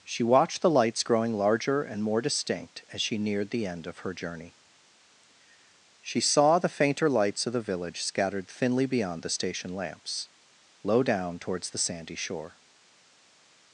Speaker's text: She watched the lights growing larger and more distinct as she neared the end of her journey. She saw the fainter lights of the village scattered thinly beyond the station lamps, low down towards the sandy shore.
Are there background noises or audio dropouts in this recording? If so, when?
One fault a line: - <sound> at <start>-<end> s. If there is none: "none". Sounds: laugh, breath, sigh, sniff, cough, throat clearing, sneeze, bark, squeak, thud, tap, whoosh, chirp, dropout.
none